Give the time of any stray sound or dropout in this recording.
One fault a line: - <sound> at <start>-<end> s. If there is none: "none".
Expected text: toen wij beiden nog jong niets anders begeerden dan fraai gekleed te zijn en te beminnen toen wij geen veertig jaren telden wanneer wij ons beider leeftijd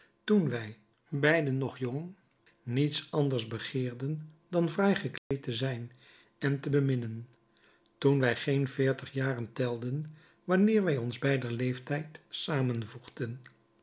- dropout at 5.2-5.3 s